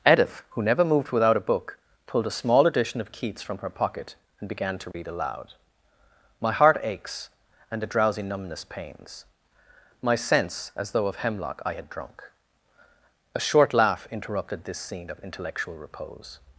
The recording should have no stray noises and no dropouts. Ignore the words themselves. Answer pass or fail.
fail